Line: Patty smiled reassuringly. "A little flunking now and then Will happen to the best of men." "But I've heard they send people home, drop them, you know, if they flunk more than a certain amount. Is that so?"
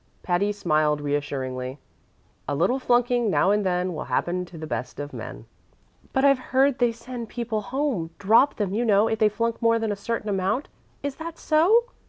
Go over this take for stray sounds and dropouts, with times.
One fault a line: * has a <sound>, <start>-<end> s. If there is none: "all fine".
all fine